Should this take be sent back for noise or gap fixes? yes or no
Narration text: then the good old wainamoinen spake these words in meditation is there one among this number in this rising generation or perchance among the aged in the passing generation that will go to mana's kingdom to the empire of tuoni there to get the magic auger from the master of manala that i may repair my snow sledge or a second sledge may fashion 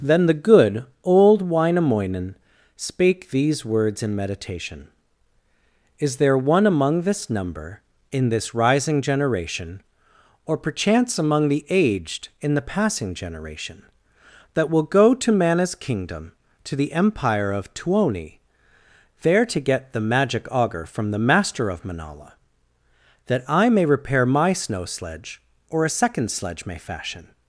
no